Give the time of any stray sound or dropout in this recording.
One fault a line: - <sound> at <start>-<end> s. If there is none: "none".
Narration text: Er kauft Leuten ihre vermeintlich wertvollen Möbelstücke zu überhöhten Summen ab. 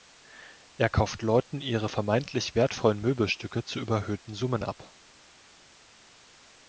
none